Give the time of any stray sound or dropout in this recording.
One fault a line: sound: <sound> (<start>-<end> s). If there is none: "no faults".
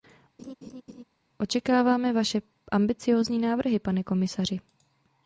sound: laugh (0.4-1.0 s)